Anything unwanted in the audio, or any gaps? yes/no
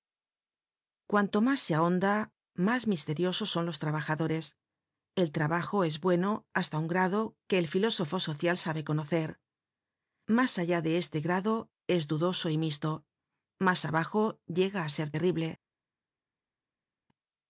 no